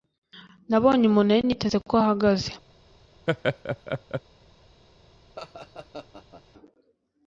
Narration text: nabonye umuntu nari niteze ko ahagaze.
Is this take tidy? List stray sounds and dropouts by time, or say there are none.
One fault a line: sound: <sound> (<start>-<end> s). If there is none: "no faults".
sound: laugh (3.3-4.2 s)
sound: laugh (5.4-6.4 s)